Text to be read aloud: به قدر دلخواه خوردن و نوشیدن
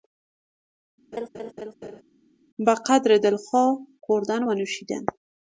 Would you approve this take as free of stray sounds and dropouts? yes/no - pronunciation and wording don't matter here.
no